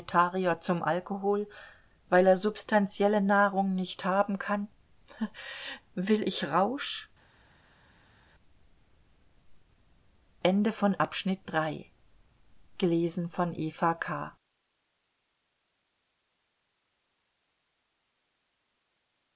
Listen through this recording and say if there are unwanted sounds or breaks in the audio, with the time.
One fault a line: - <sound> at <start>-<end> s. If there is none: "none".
none